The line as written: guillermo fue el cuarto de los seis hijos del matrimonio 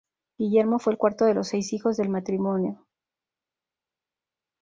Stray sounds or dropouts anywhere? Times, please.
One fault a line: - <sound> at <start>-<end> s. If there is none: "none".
none